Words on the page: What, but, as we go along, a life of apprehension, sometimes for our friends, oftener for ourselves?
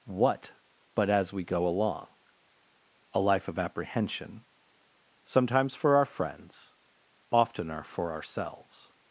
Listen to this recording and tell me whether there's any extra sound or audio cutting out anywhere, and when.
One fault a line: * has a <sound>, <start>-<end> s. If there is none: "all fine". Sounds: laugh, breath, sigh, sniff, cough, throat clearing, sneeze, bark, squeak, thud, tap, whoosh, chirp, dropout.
all fine